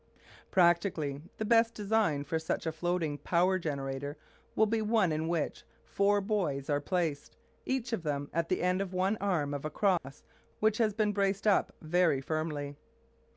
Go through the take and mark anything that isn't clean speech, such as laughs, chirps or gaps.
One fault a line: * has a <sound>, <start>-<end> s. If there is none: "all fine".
* has a dropout, 10.0-10.0 s